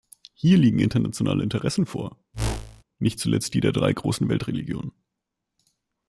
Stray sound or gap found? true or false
true